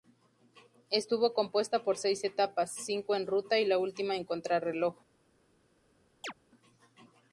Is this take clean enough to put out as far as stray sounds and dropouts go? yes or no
no